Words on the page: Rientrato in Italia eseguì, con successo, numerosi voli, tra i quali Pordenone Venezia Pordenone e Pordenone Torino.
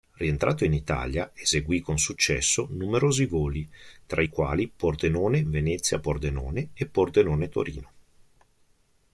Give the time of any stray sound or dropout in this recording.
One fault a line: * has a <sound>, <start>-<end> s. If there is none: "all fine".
all fine